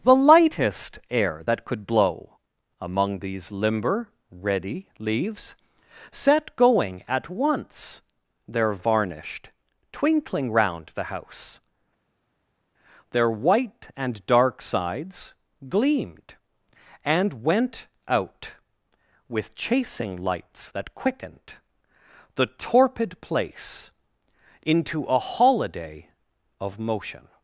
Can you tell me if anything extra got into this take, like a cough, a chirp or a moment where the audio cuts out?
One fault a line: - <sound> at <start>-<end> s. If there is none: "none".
none